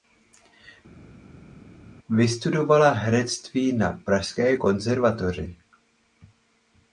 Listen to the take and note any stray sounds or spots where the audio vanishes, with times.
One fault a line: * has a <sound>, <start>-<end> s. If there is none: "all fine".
all fine